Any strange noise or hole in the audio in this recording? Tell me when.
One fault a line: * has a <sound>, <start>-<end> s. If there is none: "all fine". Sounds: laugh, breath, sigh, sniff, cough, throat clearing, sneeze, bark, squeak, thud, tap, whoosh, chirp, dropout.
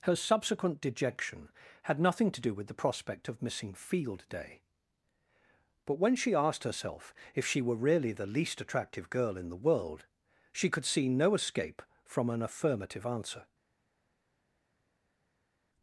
all fine